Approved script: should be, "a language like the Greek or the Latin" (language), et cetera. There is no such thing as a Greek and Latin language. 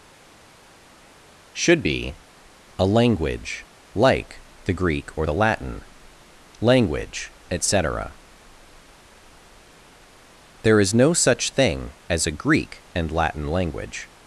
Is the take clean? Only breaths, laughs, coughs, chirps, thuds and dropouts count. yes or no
yes